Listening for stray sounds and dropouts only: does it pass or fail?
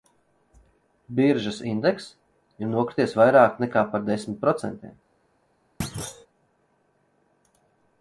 fail